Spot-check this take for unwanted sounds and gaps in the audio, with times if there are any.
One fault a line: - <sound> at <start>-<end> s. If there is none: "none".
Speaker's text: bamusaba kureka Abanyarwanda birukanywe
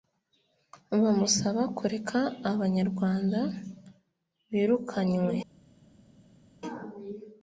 none